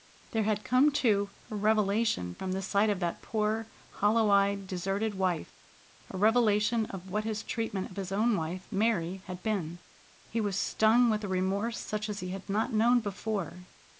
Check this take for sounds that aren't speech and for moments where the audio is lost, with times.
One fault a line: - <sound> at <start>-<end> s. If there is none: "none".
none